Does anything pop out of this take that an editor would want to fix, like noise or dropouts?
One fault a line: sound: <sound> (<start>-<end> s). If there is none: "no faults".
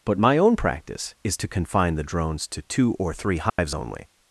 sound: dropout (3.5-3.6 s)